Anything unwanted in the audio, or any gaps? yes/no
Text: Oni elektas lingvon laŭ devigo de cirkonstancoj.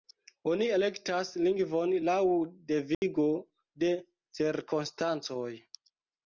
yes